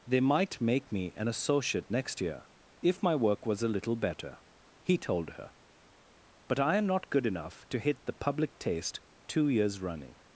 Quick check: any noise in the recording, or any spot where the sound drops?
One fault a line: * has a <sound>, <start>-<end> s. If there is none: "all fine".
all fine